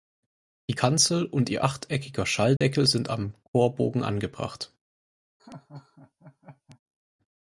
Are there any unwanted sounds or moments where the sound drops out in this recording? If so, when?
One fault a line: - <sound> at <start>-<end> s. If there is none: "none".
- dropout at 2.6-2.6 s
- laugh at 5.4-6.8 s